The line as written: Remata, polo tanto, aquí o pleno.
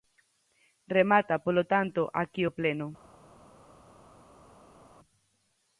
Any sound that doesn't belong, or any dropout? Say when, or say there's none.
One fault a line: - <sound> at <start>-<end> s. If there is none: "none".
none